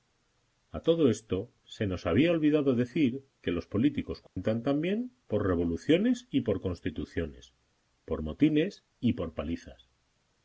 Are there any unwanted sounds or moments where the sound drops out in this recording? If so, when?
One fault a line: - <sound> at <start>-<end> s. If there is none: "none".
- dropout at 4.3-4.4 s